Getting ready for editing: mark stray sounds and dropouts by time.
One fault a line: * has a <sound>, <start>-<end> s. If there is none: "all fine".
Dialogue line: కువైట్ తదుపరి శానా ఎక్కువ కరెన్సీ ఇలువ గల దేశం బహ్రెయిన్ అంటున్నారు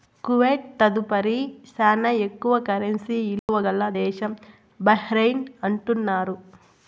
* has a dropout, 3.4-3.5 s